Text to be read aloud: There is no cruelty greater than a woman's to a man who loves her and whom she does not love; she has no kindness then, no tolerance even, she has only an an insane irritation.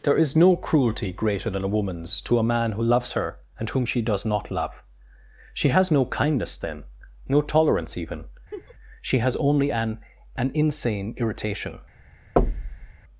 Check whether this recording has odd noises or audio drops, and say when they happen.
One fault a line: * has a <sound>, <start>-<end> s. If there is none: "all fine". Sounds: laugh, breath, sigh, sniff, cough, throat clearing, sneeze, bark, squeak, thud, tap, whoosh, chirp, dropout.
* has a laugh, 8.5-8.7 s
* has a thud, 12.4-12.9 s